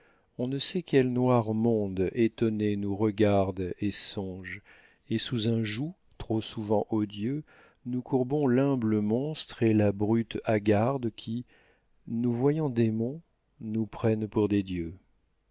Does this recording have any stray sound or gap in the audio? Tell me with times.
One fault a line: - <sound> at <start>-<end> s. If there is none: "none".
none